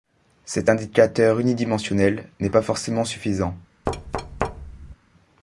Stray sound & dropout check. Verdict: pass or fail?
fail